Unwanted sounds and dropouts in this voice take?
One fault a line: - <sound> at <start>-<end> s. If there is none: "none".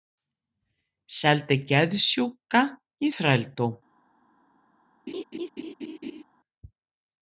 - laugh at 5.1-6.2 s